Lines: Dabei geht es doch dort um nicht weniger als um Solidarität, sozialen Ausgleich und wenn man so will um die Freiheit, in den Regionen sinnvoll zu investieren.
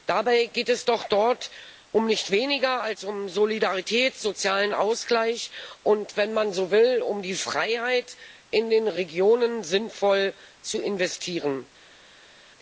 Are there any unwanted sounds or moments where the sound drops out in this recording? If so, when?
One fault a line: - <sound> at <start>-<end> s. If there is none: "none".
none